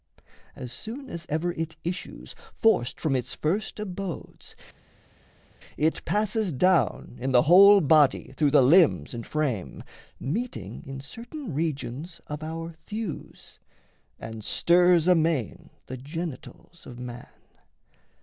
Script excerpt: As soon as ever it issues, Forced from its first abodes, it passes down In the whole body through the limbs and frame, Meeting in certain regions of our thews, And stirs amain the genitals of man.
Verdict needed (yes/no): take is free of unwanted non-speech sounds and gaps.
yes